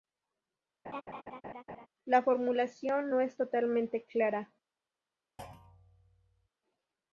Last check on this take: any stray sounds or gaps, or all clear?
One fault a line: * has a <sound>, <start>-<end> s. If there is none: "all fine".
* has a laugh, 0.8-1.9 s
* has a thud, 5.4-6.5 s